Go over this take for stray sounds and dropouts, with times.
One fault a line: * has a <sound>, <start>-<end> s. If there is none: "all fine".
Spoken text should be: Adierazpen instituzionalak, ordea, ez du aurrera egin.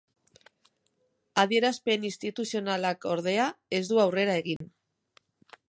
* has a dropout, 4.6-4.6 s